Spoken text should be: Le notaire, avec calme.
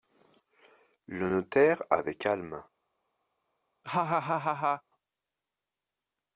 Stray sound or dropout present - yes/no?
yes